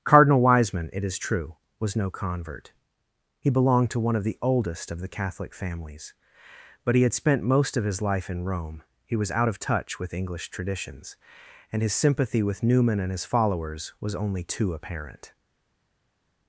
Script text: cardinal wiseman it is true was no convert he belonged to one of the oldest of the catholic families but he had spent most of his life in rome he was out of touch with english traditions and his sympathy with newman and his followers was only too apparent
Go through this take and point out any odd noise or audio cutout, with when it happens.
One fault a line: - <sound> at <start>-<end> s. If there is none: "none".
none